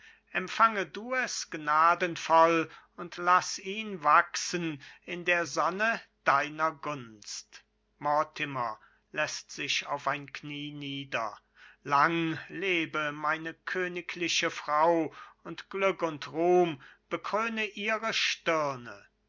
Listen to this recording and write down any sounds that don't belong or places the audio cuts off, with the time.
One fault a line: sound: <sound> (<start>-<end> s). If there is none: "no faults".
no faults